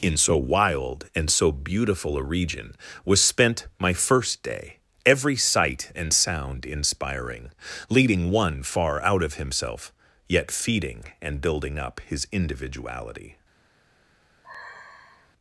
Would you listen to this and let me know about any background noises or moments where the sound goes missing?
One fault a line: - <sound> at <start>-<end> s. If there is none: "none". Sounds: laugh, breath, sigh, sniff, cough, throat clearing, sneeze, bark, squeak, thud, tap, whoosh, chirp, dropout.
- sigh at 14.4-15.3 s